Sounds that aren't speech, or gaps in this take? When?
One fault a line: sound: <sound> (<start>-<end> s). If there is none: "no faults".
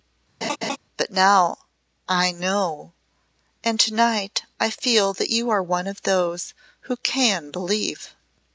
sound: laugh (0.4-0.8 s)